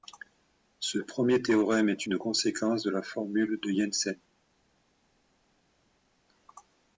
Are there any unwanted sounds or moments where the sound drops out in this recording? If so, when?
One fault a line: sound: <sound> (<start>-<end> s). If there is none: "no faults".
no faults